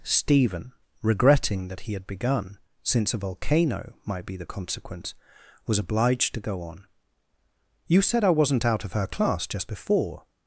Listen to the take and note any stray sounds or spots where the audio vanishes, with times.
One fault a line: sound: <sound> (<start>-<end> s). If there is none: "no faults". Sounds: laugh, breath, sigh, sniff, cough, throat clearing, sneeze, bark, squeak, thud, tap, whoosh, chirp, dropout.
no faults